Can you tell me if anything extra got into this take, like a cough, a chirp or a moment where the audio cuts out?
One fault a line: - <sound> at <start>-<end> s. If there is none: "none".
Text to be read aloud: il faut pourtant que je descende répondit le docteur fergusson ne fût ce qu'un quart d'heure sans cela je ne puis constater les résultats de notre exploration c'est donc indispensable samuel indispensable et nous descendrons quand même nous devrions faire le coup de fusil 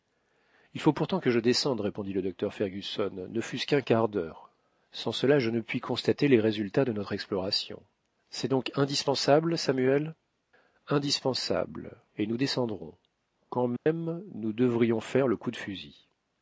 - dropout at 13.8-13.9 s